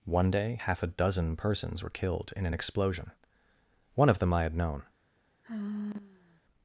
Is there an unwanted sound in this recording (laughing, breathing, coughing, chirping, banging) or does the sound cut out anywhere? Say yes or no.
yes